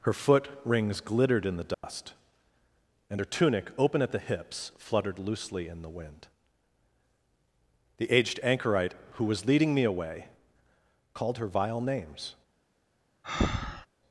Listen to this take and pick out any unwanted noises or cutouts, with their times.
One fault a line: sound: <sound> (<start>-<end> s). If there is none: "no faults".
sound: dropout (1.7-1.8 s)
sound: breath (13.2-13.9 s)